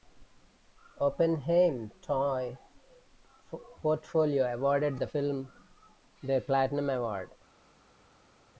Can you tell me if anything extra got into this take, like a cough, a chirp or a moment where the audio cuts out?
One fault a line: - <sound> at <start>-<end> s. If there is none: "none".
none